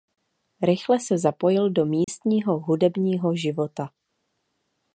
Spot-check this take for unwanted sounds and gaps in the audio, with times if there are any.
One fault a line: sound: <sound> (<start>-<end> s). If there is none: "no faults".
sound: dropout (2.0-2.1 s)